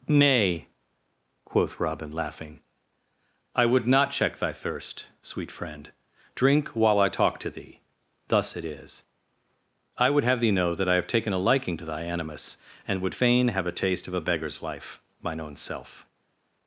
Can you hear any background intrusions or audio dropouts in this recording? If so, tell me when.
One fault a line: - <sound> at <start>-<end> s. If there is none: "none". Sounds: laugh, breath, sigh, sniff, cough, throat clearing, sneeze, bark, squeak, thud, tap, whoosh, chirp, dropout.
none